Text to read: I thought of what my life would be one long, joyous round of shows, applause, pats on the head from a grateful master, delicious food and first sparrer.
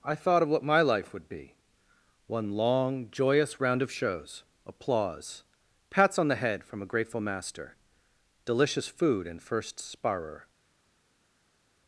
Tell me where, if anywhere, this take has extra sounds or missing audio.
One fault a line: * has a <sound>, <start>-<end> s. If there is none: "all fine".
all fine